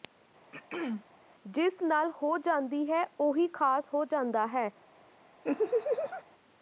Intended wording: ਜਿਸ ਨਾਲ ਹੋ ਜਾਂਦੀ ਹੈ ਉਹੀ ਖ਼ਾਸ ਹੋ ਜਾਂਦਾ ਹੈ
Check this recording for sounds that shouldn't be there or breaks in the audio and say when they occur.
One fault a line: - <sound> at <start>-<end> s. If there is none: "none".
- throat clearing at 0.5-1.0 s
- laugh at 5.4-6.2 s